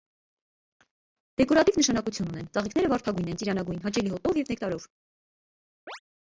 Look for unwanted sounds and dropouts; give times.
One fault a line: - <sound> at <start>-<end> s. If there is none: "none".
- chirp at 5.9-6.0 s